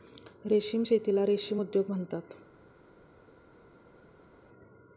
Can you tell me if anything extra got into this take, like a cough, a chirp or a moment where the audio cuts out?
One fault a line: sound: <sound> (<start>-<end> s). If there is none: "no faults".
no faults